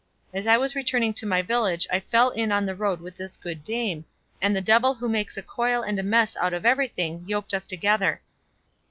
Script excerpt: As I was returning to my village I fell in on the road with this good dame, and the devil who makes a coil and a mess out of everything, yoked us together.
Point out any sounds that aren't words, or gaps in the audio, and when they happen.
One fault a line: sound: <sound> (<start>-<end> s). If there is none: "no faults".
no faults